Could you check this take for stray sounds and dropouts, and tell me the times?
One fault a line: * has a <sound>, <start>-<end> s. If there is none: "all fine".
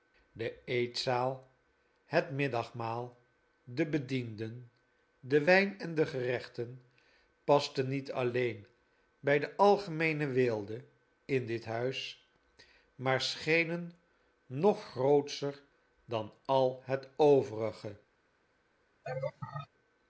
* has a laugh, 19.0-19.7 s